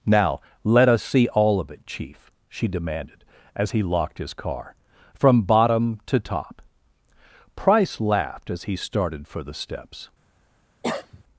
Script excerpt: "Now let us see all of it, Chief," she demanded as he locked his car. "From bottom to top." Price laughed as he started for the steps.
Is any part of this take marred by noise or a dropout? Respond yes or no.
yes